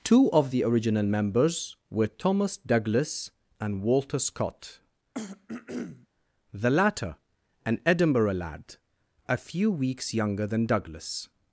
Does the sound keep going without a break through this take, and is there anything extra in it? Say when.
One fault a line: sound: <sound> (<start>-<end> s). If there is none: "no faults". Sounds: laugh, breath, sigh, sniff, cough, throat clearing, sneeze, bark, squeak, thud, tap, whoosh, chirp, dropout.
sound: throat clearing (5.1-6.1 s)